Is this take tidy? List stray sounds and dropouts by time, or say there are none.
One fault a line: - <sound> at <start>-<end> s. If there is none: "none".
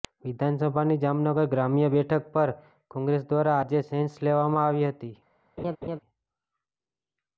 - laugh at 5.6-6.0 s